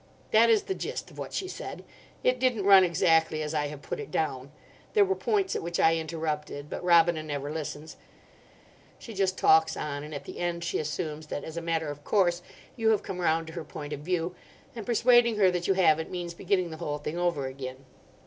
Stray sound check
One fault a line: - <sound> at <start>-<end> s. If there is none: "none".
none